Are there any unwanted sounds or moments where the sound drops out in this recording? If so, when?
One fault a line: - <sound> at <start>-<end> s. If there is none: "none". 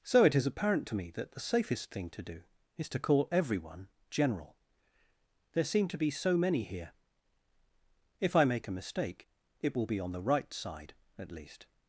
none